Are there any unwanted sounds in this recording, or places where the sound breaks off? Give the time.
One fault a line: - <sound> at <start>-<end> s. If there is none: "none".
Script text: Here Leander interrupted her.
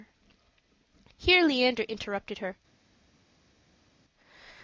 none